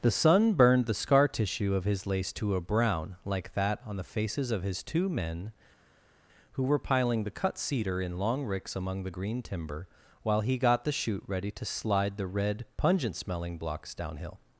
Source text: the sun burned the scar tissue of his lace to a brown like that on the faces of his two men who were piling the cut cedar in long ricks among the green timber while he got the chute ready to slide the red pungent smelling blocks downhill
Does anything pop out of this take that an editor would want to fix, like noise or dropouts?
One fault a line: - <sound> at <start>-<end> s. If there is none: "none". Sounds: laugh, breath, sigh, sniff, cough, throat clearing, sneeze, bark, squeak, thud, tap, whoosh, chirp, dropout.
none